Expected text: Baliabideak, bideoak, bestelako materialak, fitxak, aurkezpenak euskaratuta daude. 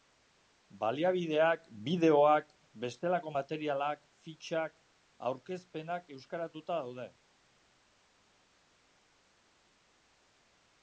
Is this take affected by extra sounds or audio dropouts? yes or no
no